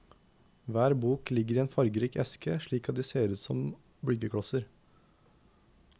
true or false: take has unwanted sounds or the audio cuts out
false